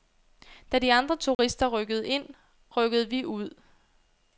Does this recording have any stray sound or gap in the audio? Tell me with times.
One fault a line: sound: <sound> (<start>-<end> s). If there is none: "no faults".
sound: dropout (1.3-1.4 s)